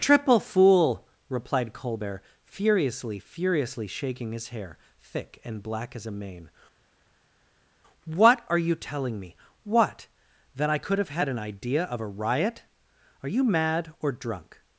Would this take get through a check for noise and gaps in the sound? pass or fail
pass